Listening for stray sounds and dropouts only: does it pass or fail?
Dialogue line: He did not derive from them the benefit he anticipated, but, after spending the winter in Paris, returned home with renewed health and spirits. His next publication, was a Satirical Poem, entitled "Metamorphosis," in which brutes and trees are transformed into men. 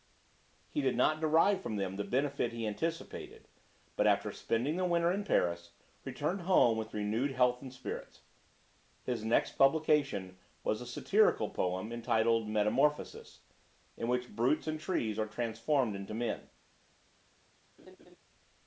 fail